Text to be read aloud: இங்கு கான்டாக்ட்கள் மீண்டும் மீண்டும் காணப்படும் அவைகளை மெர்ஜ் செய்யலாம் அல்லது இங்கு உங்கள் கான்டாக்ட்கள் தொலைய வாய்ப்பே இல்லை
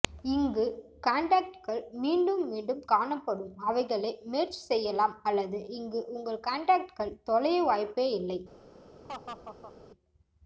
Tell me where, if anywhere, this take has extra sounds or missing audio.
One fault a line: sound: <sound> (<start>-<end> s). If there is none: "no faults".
sound: laugh (9.0-9.7 s)